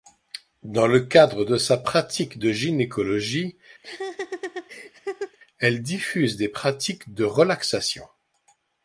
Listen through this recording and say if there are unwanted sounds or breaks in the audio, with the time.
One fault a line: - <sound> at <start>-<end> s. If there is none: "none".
- laugh at 3.8-5.4 s